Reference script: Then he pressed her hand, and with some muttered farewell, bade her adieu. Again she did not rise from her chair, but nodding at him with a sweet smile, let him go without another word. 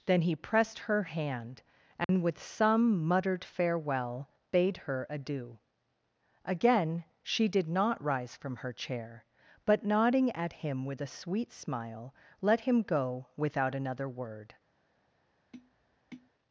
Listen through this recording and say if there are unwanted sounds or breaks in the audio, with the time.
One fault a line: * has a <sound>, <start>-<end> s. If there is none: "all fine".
* has a dropout, 2.0-2.1 s
* has a tap, 15.5-16.3 s